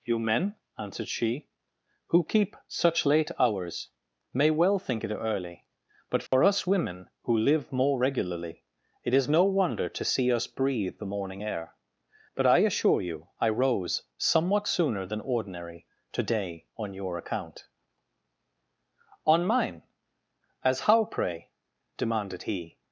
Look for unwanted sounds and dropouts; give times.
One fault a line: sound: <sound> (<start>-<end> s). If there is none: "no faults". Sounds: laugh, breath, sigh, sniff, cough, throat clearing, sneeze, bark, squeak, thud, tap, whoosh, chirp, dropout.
sound: dropout (6.3-6.3 s)